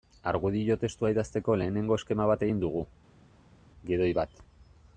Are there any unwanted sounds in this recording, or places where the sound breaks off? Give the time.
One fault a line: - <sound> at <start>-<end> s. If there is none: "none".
none